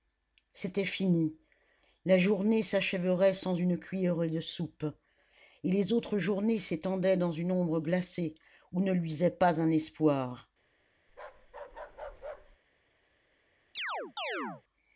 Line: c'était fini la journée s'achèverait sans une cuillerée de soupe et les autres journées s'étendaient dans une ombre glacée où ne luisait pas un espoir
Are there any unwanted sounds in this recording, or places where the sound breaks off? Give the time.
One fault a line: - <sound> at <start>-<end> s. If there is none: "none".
- bark at 11.1-12.6 s
- chirp at 13.8-14.6 s